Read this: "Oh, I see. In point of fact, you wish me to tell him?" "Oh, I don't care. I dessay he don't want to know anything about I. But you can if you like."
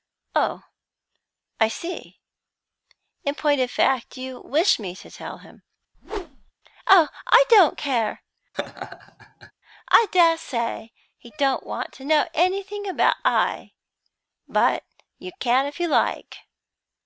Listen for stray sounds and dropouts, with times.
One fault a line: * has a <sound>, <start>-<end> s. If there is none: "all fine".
* has a whoosh, 5.9-6.5 s
* has a laugh, 8.5-9.5 s